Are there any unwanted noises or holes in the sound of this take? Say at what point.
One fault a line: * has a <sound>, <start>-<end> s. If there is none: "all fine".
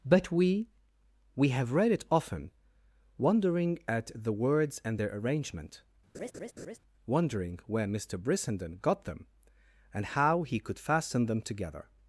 * has a laugh, 6.1-6.8 s